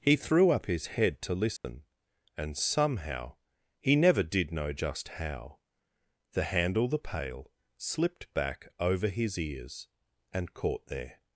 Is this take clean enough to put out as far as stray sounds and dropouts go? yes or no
no